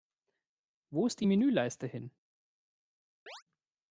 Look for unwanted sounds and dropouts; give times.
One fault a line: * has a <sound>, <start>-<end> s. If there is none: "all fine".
* has a chirp, 3.3-3.4 s